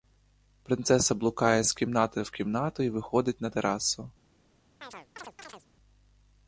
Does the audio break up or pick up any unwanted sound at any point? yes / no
yes